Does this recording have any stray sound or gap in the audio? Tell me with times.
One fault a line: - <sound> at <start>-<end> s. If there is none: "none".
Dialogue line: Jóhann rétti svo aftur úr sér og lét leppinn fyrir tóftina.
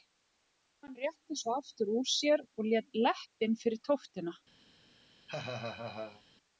- laugh at 5.3-6.2 s